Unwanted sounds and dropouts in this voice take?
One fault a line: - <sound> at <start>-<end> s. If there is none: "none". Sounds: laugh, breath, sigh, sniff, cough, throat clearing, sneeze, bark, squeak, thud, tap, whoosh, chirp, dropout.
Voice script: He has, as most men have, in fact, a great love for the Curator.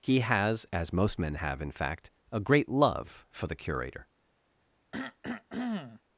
- cough at 4.9-6.0 s